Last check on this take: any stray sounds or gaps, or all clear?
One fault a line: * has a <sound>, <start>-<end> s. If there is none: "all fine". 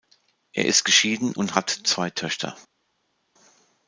all fine